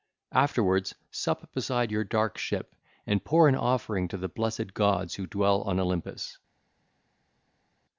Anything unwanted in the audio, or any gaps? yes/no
no